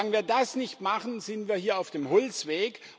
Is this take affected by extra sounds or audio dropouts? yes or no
no